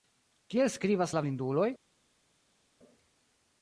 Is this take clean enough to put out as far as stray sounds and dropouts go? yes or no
yes